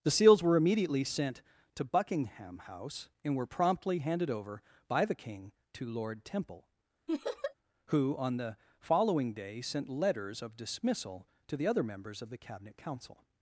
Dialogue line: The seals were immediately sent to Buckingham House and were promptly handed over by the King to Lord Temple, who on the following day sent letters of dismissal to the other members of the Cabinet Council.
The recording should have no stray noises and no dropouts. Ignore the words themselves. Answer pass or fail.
fail